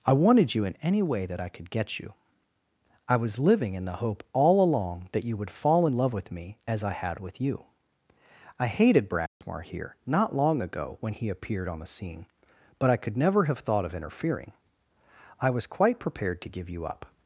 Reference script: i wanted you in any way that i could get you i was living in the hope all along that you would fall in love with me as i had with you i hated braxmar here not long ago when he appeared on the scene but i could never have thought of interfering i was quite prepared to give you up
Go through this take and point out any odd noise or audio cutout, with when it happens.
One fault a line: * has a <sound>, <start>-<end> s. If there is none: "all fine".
* has a dropout, 9.3-9.4 s